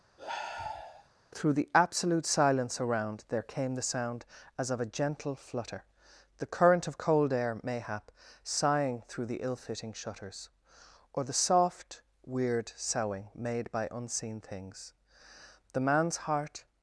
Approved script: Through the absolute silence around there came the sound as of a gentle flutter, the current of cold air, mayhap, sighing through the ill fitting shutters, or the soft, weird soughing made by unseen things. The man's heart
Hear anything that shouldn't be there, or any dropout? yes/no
yes